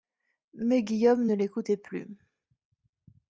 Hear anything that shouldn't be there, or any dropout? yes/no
no